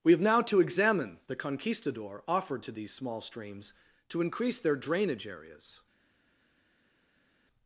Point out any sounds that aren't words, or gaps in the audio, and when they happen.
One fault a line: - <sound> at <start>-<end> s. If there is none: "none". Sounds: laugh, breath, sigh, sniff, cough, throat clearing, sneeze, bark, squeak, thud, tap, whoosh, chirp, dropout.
none